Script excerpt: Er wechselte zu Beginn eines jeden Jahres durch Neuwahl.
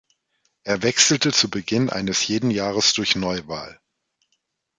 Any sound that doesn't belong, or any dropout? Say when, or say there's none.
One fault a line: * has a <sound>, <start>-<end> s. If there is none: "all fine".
all fine